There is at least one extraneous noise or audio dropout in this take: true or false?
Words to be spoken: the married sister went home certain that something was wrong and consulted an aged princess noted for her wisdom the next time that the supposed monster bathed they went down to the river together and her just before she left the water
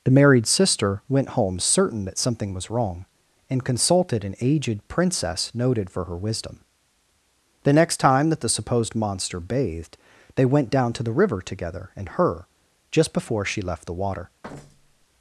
true